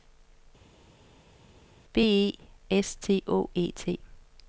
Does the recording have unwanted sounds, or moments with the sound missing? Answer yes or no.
no